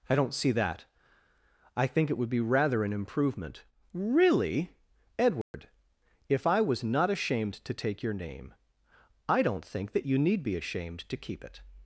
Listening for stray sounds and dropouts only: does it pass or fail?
fail